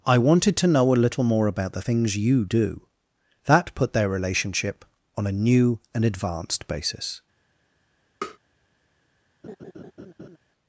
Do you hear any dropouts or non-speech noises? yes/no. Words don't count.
yes